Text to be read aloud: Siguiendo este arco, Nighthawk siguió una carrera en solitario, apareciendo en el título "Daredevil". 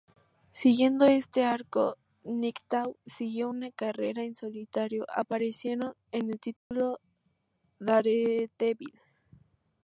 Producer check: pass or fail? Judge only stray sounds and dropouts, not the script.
fail